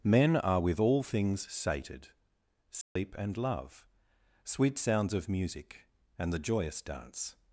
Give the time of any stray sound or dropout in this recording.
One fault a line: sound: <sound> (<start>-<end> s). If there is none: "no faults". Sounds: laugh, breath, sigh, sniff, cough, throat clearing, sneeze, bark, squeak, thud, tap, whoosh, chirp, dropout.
sound: dropout (2.8-3.0 s)